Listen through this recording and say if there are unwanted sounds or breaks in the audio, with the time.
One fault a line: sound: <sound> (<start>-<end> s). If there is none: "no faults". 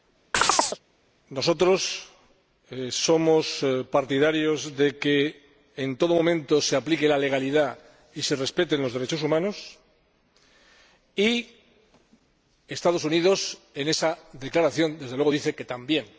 sound: chirp (0.3-0.8 s)